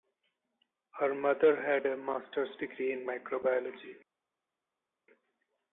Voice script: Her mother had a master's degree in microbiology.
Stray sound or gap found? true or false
false